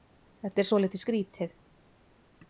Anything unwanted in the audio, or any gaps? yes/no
no